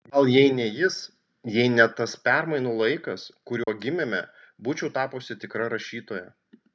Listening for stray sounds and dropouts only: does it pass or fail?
fail